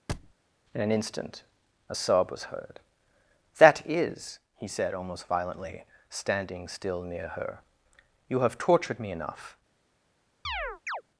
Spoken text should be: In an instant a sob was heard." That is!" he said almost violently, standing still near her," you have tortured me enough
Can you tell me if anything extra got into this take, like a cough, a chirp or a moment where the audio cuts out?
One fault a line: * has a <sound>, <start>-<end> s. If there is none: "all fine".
* has a thud, 0.1-0.3 s
* has a chirp, 10.4-11.0 s